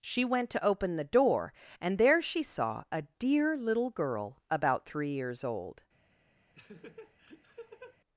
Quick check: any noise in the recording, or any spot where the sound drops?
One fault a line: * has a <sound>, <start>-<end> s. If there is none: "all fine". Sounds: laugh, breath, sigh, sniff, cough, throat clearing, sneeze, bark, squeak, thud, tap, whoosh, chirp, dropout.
* has a laugh, 6.5-8.0 s